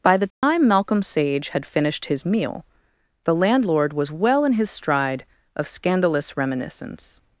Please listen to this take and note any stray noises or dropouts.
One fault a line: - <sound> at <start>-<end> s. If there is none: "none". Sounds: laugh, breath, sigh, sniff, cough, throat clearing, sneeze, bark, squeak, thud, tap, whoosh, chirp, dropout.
- dropout at 0.3-0.4 s